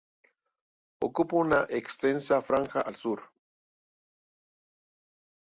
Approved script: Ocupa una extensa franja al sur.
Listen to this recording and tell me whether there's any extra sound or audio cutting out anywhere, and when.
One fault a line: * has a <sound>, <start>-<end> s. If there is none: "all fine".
all fine